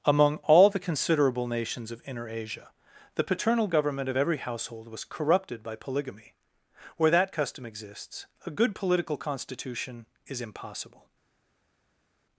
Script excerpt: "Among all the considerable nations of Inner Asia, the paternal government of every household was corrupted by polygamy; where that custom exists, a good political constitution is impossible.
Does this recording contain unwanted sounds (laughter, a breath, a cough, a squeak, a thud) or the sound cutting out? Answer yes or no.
no